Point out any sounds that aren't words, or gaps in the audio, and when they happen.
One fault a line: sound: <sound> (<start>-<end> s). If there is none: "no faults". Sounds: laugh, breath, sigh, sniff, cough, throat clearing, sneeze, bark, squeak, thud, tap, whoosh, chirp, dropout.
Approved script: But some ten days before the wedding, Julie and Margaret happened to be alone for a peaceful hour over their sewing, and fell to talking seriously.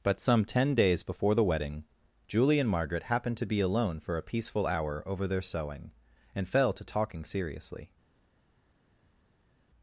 no faults